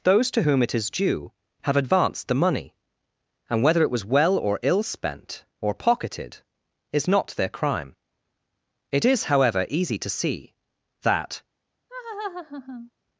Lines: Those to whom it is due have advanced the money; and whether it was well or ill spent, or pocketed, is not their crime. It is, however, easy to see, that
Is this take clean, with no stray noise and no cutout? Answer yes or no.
no